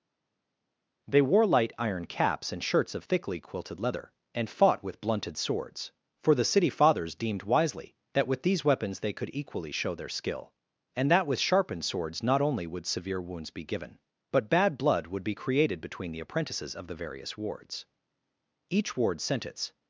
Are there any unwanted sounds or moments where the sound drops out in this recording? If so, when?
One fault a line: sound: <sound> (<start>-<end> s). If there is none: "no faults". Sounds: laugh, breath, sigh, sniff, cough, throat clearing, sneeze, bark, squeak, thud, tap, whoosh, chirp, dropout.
no faults